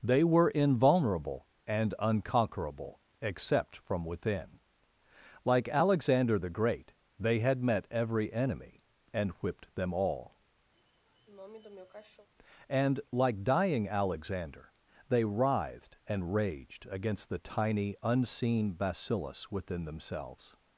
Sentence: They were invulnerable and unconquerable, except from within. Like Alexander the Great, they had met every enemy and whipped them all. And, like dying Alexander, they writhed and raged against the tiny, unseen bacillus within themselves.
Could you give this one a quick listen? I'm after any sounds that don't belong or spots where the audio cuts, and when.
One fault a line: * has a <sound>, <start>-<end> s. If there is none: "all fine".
* has a sniff, 10.7-12.3 s